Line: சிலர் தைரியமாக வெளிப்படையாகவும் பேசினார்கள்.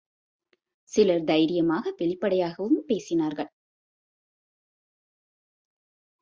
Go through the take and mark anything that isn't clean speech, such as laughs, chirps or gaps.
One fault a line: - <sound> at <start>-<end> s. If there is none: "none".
none